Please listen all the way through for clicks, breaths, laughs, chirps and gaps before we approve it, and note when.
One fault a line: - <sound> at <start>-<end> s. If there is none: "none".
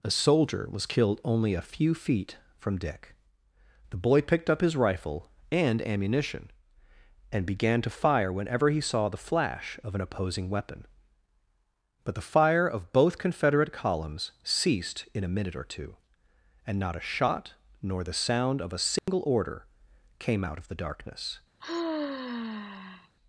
- dropout at 19.0-19.1 s
- sigh at 21.6-23.1 s